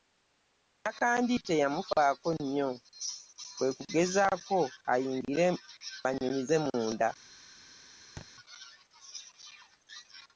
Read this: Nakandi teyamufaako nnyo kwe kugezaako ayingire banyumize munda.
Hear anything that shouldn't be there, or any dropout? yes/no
yes